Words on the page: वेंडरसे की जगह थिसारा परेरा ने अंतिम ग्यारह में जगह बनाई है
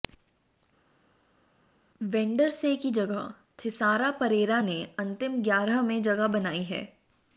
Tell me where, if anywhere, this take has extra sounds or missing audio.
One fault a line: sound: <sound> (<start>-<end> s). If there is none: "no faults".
no faults